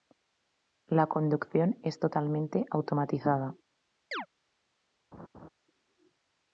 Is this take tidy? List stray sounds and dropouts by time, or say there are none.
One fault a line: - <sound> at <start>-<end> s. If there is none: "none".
- chirp at 4.1-4.3 s
- laugh at 5.1-5.5 s